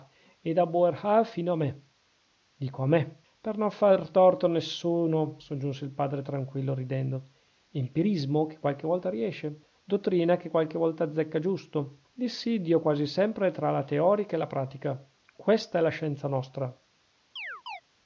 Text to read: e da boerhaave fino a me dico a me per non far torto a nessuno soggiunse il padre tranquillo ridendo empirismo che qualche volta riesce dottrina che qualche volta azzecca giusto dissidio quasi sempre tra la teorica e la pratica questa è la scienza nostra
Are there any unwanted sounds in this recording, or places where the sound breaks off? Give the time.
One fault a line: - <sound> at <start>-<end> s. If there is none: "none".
- chirp at 17.4-17.8 s